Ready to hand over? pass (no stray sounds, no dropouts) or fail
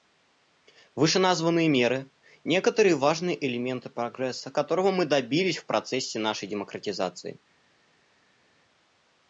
pass